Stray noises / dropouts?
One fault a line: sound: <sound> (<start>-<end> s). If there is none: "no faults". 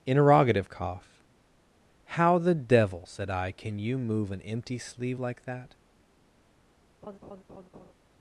sound: laugh (7.0-7.9 s)